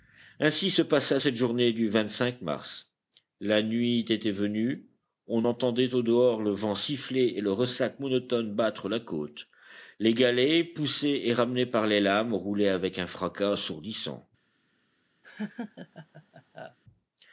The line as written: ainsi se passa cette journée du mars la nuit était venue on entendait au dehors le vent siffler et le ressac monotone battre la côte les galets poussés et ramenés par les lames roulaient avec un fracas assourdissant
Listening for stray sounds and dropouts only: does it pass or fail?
fail